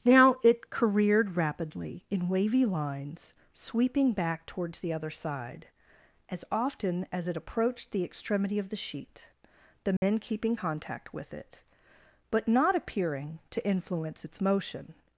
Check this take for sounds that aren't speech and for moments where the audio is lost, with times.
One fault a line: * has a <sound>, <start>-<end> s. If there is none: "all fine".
* has a dropout, 10.0-10.0 s